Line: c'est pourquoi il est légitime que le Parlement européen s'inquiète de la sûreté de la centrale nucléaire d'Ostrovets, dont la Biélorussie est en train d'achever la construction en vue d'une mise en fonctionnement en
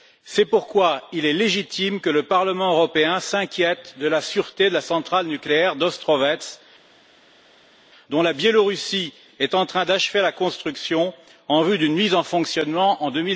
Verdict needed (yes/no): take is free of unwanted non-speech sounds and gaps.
yes